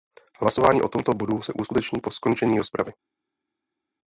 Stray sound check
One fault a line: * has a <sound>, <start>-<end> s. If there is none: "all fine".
all fine